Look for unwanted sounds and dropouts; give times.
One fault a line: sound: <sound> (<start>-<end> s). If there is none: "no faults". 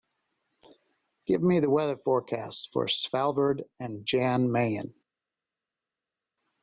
no faults